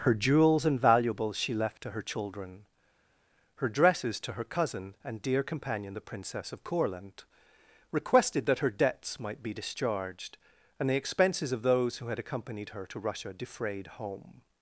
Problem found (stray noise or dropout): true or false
false